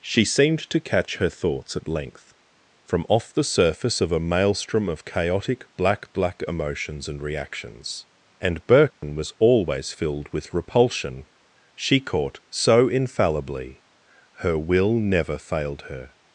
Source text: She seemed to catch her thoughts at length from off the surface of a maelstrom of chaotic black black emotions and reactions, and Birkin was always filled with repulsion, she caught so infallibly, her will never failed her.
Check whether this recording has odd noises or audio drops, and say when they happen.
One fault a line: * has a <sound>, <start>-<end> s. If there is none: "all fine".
* has a dropout, 8.9-9.0 s